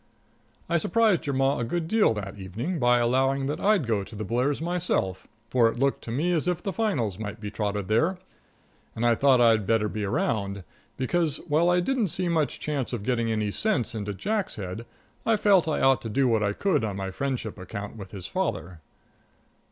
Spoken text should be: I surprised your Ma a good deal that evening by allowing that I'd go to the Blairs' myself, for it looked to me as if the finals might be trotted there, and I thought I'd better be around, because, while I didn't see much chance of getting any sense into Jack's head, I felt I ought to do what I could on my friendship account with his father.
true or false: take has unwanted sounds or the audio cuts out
false